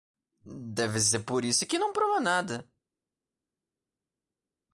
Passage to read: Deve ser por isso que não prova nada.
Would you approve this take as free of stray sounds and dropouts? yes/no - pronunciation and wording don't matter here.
yes